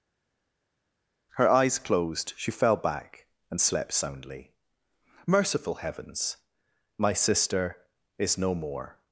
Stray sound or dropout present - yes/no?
no